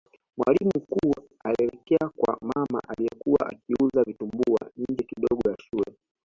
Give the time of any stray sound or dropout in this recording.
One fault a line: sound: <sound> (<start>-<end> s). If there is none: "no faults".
no faults